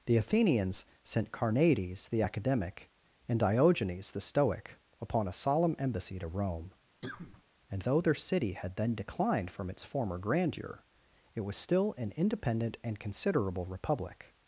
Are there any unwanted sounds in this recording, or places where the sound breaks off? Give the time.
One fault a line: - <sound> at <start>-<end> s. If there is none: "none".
- cough at 7.0-7.4 s